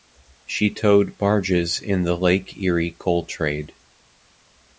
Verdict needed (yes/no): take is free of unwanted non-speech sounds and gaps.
yes